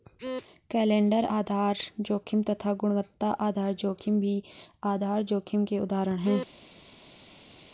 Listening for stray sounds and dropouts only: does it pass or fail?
pass